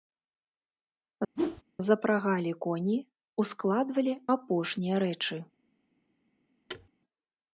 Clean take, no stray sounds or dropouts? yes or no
no